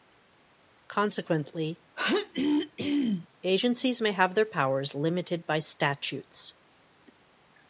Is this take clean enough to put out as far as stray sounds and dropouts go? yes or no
no